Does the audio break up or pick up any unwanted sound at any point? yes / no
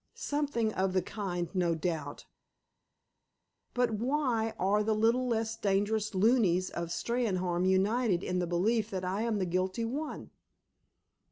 no